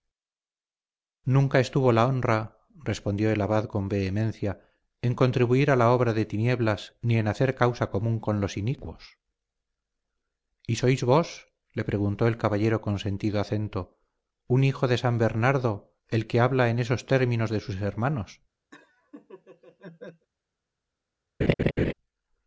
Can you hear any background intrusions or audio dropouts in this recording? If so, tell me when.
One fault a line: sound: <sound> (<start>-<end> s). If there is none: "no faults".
sound: laugh (18.7-20.3 s)
sound: laugh (21.4-21.9 s)